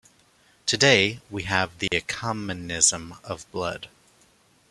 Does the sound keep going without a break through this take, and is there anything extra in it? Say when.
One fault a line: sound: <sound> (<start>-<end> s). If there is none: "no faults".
sound: dropout (1.9-1.9 s)